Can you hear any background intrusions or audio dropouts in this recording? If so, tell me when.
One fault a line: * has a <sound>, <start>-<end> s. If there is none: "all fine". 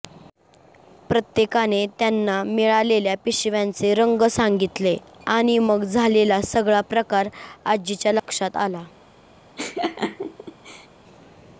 * has a dropout, 8.2-8.3 s
* has a laugh, 9.6-10.9 s